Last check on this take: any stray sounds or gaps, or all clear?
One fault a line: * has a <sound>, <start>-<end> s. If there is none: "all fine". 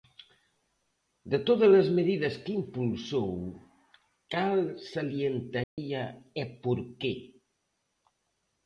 * has a dropout, 5.6-5.8 s